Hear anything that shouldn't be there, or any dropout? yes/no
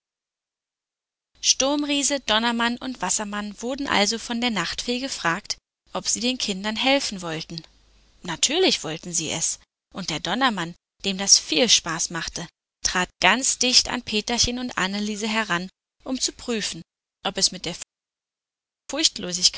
no